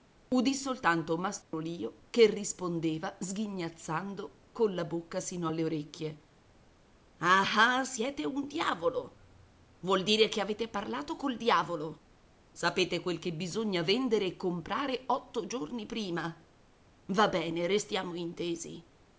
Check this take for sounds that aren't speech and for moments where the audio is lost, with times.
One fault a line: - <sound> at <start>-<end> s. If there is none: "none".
- dropout at 1.4-1.5 s